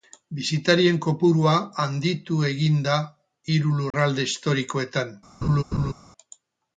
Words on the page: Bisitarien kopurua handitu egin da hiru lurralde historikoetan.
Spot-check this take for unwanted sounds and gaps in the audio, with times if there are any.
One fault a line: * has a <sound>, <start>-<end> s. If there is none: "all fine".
* has a dropout, 3.9-3.9 s
* has a laugh, 5.4-5.9 s